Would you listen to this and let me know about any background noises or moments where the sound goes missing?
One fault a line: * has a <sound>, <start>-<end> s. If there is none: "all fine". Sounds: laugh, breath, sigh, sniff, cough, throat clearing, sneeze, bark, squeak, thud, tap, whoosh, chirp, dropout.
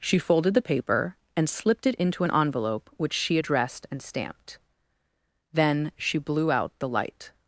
all fine